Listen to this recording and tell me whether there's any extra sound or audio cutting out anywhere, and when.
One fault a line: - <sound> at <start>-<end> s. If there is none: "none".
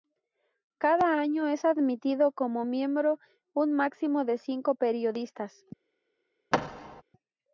- thud at 6.5-7.0 s